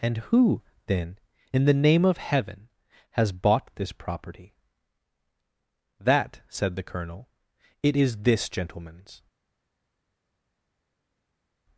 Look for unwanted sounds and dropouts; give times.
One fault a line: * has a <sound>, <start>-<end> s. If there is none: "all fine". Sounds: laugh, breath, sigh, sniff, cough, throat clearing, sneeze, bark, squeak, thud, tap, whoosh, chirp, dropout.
all fine